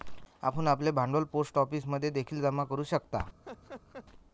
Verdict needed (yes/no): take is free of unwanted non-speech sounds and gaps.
no